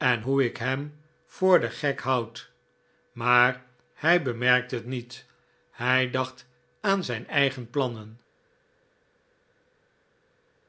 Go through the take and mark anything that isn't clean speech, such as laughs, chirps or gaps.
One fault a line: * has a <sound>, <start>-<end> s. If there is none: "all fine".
all fine